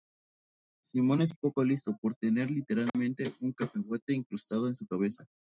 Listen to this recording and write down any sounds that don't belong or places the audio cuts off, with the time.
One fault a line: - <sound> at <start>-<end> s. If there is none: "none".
- dropout at 2.9-2.9 s